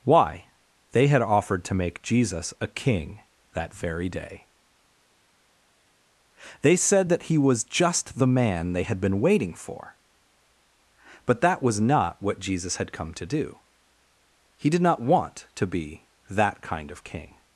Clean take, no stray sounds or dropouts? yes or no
yes